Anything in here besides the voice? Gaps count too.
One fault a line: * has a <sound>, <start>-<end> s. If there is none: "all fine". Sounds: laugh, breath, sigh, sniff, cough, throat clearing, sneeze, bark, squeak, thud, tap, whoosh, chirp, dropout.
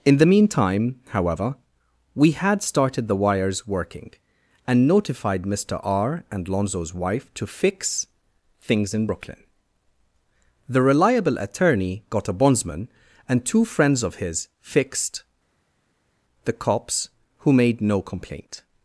all fine